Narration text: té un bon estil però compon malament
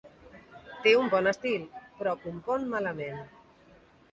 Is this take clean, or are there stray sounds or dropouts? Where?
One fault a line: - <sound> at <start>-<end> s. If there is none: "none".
none